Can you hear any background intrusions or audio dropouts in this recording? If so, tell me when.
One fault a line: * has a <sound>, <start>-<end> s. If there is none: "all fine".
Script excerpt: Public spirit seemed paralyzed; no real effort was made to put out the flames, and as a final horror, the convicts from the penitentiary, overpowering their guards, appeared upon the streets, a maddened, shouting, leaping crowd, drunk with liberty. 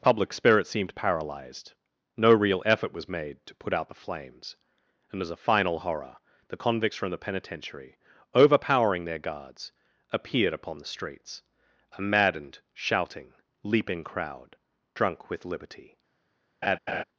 * has a laugh, 16.6-17.0 s